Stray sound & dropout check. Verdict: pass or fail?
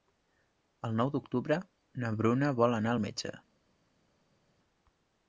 pass